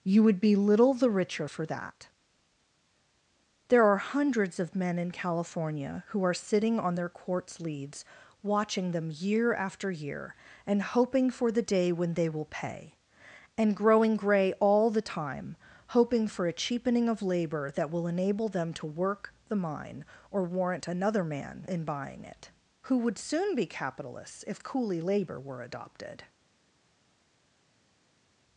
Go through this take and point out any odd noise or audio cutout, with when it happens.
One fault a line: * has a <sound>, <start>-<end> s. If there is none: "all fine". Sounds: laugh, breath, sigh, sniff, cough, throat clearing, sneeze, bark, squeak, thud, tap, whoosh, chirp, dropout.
all fine